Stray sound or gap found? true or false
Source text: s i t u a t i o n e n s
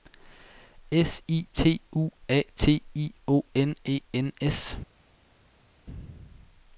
false